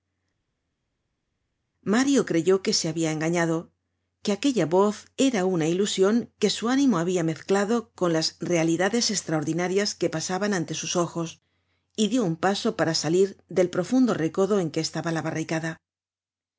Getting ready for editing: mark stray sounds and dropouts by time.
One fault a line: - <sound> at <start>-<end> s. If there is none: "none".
none